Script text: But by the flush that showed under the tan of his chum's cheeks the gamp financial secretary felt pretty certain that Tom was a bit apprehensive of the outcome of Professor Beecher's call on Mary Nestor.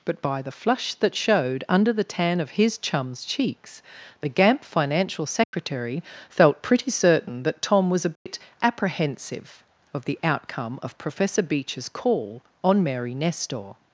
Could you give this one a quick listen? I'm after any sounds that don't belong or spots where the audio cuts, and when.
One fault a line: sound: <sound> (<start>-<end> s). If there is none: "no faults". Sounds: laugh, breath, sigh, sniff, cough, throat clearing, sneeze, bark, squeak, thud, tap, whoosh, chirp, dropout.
sound: dropout (5.4-5.5 s)
sound: dropout (8.2-8.3 s)